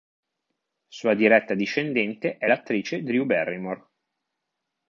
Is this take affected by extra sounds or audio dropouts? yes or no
no